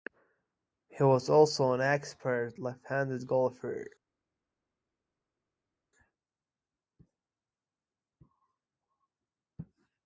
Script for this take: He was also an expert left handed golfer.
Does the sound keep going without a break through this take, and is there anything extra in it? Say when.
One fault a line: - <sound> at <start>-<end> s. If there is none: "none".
none